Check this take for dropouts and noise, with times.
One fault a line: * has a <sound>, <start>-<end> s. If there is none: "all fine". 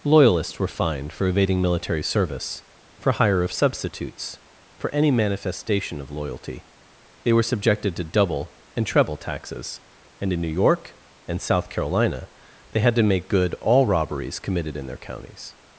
all fine